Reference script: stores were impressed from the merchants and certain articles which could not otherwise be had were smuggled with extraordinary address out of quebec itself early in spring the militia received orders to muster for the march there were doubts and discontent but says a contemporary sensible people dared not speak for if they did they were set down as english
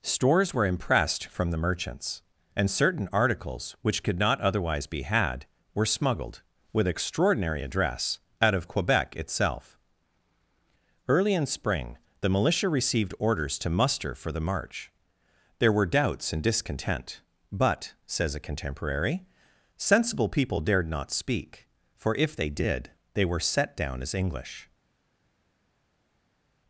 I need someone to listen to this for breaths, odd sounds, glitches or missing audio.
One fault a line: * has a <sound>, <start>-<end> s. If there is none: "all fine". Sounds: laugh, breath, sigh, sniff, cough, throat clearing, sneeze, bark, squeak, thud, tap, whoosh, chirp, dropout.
all fine